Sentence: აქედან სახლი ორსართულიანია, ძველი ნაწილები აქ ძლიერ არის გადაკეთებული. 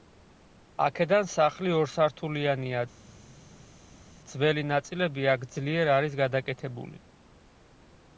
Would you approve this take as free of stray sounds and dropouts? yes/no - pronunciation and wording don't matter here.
yes